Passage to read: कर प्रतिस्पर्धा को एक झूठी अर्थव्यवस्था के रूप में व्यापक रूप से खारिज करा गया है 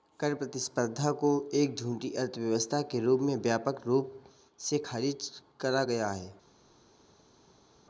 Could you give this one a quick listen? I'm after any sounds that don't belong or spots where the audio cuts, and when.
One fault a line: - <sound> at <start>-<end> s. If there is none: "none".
none